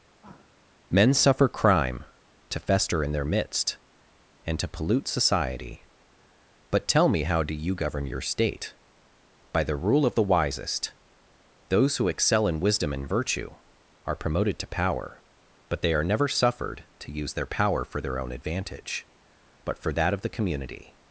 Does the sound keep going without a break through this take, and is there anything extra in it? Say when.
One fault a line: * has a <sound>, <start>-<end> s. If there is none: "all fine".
* has a sigh, 0.2-0.6 s